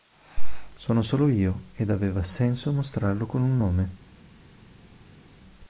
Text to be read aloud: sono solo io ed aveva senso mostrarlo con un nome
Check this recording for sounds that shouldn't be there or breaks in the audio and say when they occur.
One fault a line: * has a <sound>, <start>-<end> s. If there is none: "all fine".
all fine